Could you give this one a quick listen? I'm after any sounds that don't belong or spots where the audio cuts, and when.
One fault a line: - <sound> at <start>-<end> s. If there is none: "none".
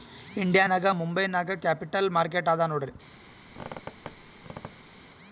- squeak at 3.5-5.0 s